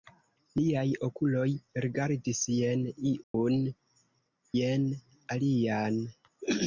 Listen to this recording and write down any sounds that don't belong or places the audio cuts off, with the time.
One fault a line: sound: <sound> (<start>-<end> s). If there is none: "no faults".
sound: dropout (3.2-3.3 s)